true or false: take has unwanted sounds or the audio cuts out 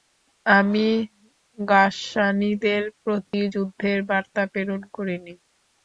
true